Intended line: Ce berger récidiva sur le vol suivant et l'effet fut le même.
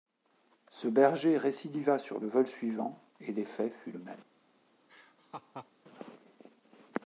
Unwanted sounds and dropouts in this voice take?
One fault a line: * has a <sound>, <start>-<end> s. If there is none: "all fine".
* has a laugh, 4.9-5.7 s